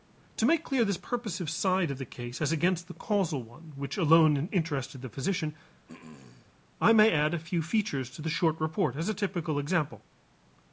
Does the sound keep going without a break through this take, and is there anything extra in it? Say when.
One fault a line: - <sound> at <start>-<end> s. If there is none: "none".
- throat clearing at 5.9-6.6 s